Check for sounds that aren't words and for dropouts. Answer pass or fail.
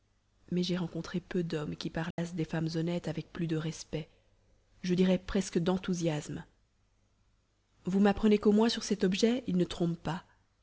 fail